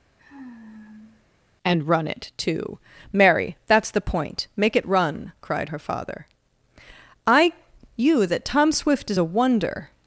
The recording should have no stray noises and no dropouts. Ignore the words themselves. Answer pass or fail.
fail